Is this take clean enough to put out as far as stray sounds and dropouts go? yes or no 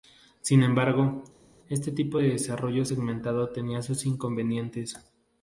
yes